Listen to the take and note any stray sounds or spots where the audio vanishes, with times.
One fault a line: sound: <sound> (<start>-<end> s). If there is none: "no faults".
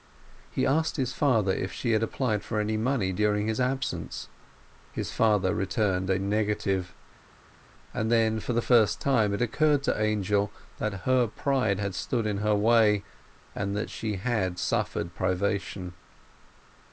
no faults